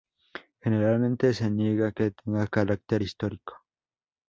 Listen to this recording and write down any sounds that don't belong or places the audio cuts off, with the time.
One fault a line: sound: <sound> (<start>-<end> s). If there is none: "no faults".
no faults